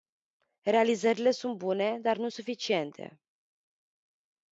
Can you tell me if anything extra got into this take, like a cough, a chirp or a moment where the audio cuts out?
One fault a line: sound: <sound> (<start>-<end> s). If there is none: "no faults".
no faults